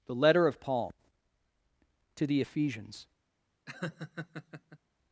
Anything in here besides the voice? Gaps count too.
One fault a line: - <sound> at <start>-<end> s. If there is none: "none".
- laugh at 3.7-4.8 s